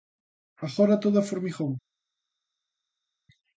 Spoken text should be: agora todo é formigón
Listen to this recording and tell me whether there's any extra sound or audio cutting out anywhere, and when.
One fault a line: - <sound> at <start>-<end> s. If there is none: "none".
none